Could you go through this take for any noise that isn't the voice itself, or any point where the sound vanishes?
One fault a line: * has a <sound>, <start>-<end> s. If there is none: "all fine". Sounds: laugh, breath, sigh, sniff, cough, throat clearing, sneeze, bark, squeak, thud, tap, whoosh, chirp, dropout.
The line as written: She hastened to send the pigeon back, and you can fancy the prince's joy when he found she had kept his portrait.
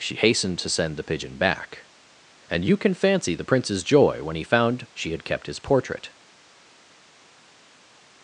all fine